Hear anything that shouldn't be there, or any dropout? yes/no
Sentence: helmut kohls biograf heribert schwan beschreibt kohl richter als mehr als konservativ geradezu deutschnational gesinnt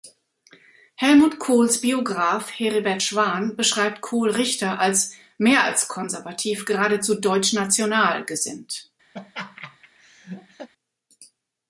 yes